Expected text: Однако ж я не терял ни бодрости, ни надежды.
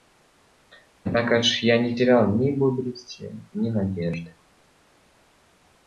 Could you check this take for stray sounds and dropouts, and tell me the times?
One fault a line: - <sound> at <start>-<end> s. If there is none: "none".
none